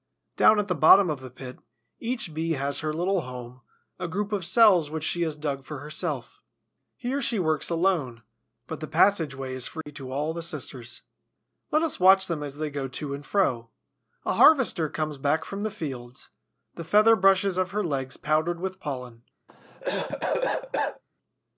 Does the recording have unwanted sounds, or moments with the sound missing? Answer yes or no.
yes